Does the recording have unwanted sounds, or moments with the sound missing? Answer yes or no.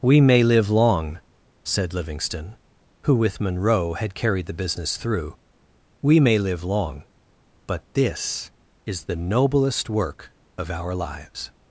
no